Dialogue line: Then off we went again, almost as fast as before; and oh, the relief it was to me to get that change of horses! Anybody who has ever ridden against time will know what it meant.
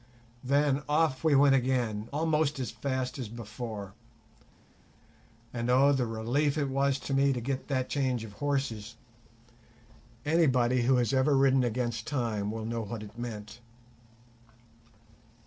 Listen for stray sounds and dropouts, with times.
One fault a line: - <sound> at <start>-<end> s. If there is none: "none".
none